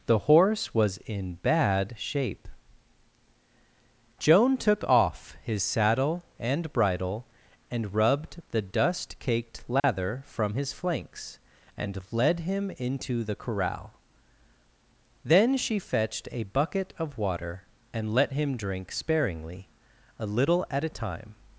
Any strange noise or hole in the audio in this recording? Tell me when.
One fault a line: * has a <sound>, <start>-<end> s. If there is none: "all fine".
* has a dropout, 9.8-9.8 s